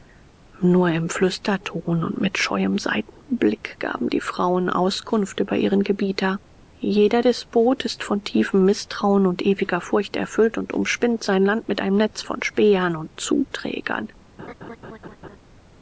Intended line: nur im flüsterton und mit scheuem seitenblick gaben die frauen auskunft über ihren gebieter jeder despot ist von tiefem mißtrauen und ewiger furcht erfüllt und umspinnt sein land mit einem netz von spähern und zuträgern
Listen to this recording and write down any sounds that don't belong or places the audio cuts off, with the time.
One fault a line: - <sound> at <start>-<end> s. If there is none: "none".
- laugh at 14.4-15.4 s